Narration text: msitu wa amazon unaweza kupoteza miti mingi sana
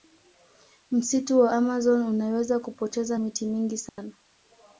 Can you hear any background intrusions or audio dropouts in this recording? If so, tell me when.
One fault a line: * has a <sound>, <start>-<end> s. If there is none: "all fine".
* has a dropout, 3.9-4.0 s